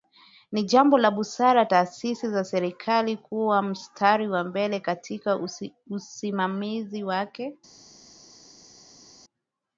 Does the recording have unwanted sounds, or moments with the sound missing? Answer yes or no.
no